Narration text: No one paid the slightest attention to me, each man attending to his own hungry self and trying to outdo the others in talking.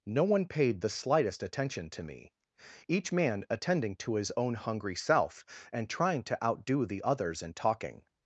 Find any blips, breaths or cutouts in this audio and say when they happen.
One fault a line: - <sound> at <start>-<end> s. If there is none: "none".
none